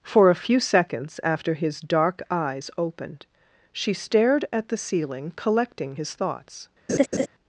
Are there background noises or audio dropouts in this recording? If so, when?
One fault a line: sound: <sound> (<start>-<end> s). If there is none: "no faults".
sound: laugh (6.9-7.3 s)